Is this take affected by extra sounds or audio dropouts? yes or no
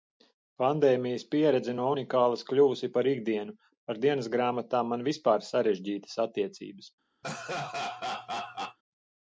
yes